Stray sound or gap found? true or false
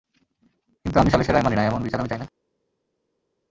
false